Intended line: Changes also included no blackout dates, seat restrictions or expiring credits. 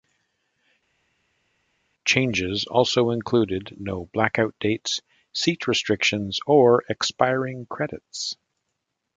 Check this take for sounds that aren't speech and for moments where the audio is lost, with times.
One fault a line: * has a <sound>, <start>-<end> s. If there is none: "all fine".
all fine